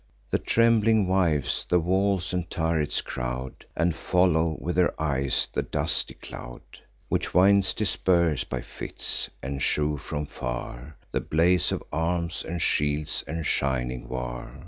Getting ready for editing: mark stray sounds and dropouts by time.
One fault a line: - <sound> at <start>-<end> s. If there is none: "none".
none